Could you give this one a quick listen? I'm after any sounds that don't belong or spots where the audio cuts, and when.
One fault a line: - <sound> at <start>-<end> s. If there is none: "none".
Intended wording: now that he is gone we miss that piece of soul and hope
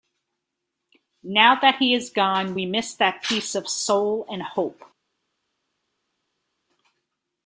none